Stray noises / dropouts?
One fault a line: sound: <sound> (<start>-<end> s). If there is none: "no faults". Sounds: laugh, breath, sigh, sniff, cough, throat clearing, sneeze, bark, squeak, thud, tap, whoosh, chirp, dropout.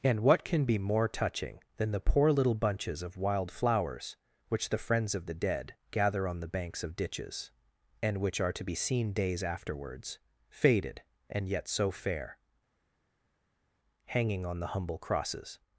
no faults